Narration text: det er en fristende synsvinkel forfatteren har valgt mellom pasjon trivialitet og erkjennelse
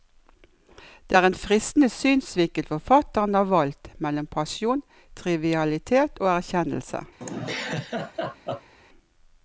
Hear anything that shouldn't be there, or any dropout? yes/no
yes